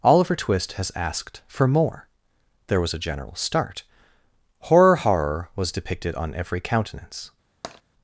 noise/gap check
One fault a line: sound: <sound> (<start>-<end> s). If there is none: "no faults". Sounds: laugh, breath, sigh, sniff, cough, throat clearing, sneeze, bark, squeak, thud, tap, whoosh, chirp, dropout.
sound: tap (7.6-7.8 s)